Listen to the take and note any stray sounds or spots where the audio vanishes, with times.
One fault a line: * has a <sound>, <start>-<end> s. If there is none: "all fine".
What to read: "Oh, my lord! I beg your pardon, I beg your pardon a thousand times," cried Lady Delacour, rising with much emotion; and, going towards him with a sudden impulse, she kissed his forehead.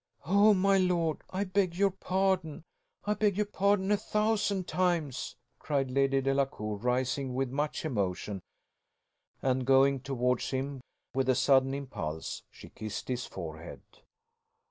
all fine